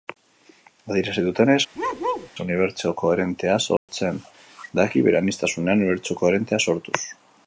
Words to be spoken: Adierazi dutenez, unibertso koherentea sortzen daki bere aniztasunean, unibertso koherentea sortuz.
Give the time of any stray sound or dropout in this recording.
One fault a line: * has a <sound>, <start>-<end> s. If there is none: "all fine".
* has a bark, 1.7-2.3 s
* has a dropout, 3.8-3.9 s